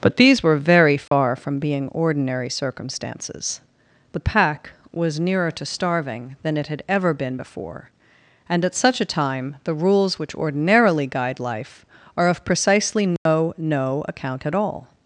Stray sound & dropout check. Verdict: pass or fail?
fail